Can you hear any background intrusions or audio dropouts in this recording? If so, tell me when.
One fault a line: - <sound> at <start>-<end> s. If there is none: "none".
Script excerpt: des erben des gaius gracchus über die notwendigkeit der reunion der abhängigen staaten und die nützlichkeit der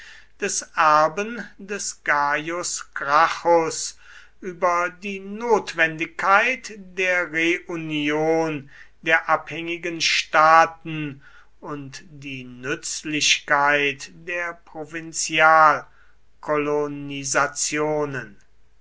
none